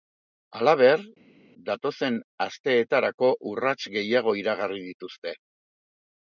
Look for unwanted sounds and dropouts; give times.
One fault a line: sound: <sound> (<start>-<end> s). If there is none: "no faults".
no faults